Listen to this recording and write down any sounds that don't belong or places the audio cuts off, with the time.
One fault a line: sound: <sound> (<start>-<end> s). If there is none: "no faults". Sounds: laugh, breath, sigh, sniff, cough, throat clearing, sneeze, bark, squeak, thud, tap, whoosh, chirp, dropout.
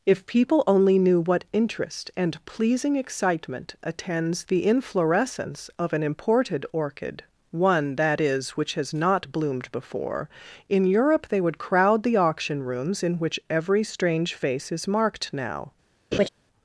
sound: laugh (16.1-16.3 s)